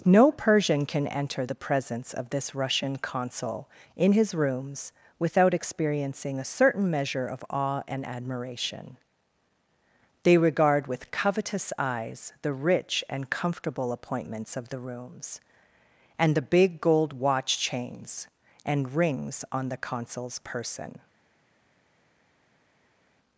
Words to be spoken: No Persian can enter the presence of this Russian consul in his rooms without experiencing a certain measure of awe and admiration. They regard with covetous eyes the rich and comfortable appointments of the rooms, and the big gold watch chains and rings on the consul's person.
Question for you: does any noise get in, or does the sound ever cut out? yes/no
no